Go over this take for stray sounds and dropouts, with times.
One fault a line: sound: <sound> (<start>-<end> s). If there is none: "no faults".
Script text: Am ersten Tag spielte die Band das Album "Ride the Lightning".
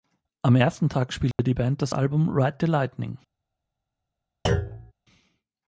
sound: dropout (1.3-1.4 s)
sound: thud (4.5-4.9 s)